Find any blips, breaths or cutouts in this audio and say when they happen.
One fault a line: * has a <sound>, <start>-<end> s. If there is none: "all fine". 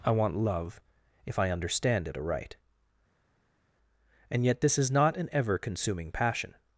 all fine